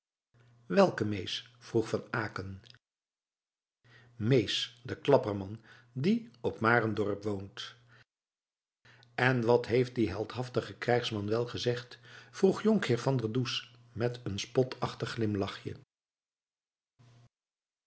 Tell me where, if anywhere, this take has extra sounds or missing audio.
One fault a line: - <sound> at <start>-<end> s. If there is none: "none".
none